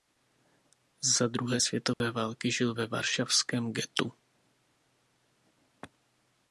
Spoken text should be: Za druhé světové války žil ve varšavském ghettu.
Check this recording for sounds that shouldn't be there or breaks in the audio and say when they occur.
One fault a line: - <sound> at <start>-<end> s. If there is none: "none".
- dropout at 1.9-2.0 s